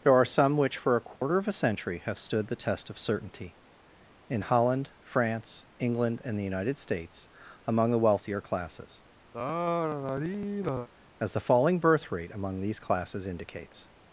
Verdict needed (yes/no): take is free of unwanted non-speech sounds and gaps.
no